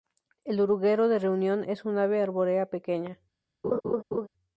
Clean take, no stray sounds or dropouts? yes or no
no